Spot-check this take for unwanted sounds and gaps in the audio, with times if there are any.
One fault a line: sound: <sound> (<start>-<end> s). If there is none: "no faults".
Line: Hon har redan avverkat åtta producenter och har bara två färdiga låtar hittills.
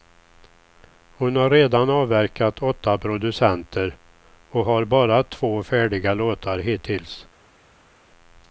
no faults